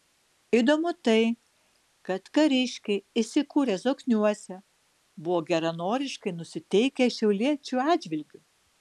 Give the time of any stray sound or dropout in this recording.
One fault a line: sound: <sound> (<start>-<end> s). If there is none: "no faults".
no faults